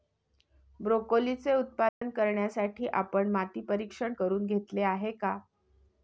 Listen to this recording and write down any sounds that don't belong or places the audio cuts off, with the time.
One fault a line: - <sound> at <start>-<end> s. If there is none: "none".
- dropout at 1.9-2.0 s